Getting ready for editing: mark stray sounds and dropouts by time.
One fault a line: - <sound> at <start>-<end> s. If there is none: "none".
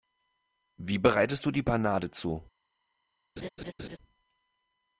- laugh at 3.4-4.0 s